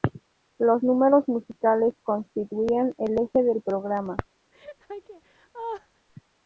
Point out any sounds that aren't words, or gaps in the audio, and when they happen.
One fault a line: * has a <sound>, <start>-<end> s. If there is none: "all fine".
* has a laugh, 4.5-6.1 s